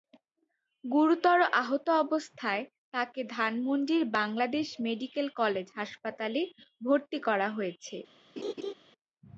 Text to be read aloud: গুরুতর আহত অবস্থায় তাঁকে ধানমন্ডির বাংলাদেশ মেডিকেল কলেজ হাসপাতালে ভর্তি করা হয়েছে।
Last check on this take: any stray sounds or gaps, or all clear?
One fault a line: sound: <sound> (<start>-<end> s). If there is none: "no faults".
sound: laugh (8.4-8.7 s)